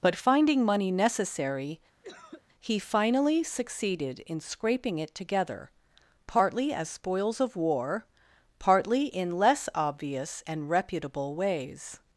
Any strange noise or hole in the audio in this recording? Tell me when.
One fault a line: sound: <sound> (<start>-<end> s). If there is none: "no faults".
sound: cough (2.0-2.4 s)